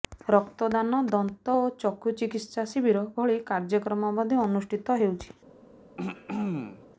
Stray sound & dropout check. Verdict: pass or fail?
fail